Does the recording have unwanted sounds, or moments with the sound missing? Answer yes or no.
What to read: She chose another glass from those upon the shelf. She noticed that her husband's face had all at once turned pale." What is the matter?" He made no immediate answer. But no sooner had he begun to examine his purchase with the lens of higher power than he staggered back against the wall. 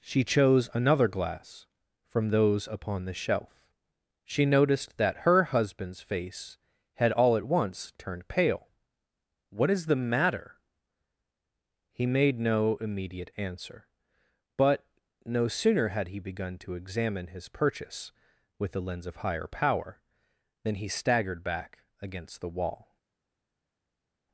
no